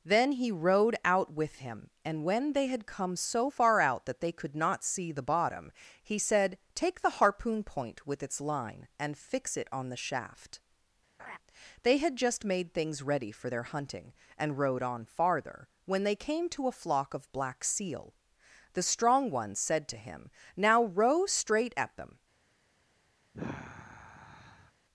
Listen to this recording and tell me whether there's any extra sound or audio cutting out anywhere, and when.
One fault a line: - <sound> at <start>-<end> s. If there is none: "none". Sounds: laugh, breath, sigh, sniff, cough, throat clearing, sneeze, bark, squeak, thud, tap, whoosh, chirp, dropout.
- laugh at 11.2-11.4 s
- sigh at 23.3-24.7 s